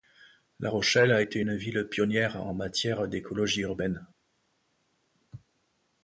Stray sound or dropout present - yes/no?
no